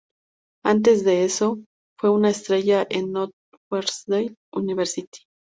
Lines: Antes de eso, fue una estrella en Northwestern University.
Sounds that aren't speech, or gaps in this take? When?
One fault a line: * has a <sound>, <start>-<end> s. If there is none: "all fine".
all fine